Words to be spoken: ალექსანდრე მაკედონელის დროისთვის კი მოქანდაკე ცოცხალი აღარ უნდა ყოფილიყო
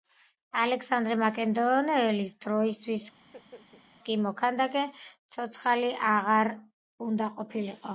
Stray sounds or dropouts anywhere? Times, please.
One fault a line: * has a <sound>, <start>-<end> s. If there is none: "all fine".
* has a laugh, 3.2-3.8 s